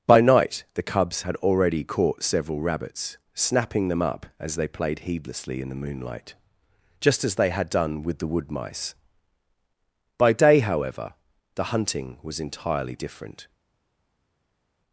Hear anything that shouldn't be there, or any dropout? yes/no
no